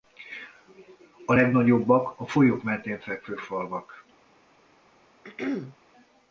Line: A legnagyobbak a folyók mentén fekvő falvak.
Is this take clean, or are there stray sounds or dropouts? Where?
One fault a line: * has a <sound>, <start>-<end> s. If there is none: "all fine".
* has a throat clearing, 5.2-5.8 s